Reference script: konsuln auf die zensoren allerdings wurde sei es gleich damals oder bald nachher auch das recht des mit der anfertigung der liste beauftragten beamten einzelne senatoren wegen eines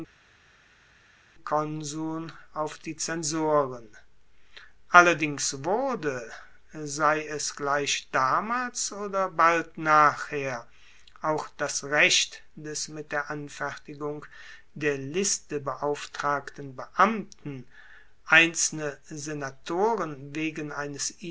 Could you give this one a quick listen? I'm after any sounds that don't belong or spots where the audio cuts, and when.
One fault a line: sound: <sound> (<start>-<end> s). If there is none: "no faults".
no faults